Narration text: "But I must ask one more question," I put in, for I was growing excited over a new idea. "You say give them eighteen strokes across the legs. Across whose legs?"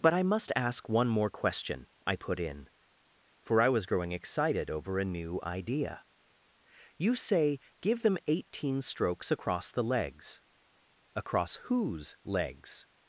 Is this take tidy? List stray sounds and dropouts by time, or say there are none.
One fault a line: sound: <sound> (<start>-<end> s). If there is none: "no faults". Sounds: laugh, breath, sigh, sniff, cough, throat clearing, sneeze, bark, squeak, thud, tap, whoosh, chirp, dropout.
no faults